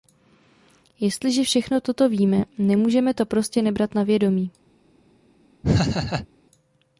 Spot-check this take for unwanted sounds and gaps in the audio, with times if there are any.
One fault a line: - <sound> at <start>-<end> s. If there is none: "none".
- laugh at 5.6-6.3 s